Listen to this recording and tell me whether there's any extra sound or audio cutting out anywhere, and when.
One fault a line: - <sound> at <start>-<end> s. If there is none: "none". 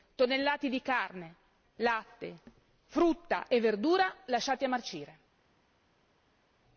none